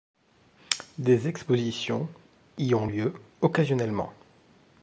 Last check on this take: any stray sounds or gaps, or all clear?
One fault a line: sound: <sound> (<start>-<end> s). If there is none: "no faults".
no faults